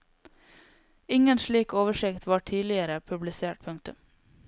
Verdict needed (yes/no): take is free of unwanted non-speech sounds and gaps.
yes